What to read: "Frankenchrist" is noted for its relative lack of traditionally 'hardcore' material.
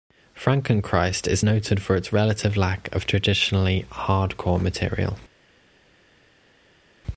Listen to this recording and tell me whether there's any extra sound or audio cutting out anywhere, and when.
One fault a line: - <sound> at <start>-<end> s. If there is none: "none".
none